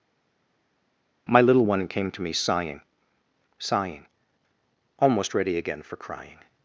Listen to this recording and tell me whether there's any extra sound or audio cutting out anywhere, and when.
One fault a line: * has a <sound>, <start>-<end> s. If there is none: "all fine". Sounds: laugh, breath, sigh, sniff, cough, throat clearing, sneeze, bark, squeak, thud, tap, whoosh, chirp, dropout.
all fine